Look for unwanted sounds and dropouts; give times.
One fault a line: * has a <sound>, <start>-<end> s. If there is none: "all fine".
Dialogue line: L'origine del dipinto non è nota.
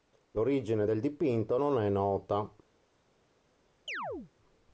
* has a chirp, 3.9-4.3 s